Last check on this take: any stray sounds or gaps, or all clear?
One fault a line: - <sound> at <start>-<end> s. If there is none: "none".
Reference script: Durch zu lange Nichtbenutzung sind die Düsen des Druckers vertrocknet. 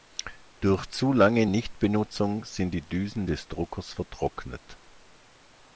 none